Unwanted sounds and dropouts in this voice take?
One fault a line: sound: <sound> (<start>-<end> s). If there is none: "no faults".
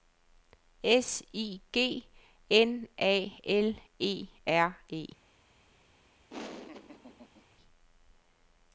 sound: laugh (6.3-7.5 s)